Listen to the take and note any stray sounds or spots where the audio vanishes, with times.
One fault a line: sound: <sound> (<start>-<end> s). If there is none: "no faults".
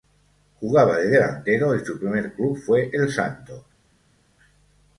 no faults